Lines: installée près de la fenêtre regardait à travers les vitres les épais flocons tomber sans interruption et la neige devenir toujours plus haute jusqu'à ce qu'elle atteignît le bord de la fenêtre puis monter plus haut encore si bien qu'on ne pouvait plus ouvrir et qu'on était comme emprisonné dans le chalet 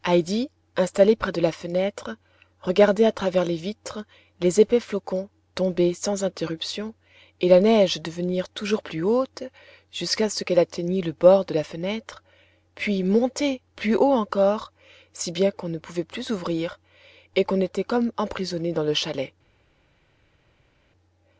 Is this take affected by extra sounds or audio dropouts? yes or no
no